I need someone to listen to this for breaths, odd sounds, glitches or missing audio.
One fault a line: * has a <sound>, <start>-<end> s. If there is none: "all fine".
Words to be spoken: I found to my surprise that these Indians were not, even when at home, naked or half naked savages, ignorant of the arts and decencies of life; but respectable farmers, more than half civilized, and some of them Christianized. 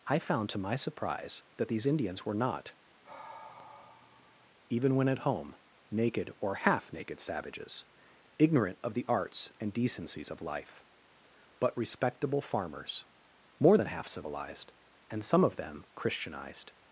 * has a sigh, 3.0-4.5 s